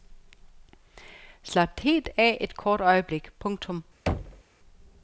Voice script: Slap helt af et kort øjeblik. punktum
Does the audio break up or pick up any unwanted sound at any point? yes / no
yes